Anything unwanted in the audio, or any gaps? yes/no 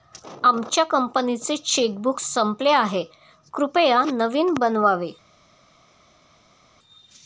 no